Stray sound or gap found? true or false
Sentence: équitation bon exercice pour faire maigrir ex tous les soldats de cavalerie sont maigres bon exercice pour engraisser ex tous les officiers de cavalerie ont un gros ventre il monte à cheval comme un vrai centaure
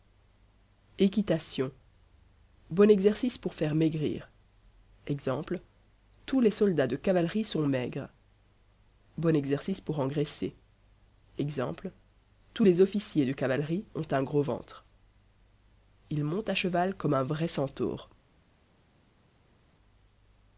false